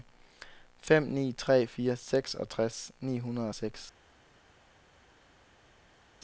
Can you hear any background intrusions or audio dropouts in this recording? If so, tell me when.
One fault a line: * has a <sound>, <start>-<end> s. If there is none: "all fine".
all fine